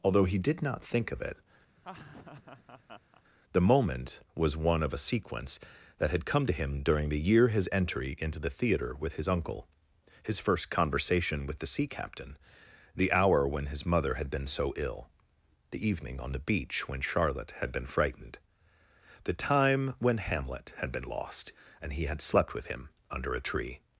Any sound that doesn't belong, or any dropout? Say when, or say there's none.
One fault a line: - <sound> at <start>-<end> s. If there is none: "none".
- laugh at 1.8-3.2 s